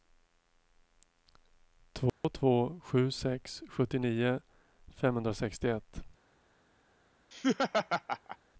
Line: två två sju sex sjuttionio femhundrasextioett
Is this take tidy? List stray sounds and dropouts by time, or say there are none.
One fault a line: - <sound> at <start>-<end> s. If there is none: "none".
- dropout at 2.1-2.2 s
- laugh at 7.3-8.4 s